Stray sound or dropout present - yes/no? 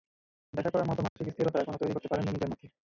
yes